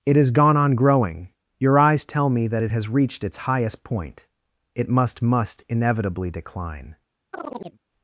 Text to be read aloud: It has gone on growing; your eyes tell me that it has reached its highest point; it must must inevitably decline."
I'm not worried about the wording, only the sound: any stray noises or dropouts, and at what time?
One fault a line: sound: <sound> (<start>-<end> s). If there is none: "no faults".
sound: chirp (7.3-7.8 s)